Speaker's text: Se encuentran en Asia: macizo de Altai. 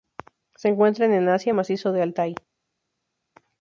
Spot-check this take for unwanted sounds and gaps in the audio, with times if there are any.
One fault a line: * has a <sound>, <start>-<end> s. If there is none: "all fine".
all fine